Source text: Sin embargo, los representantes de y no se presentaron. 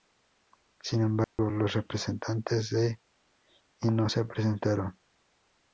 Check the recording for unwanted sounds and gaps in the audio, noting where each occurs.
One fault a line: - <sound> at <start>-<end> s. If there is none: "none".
- dropout at 1.2-1.4 s